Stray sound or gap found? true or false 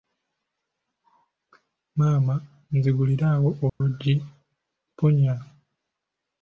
true